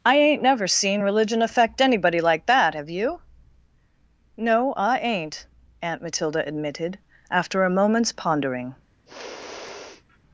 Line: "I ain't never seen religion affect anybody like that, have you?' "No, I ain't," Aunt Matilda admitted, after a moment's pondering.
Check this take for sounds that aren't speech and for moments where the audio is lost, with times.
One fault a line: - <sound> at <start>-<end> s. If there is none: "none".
- sniff at 9.1-10.2 s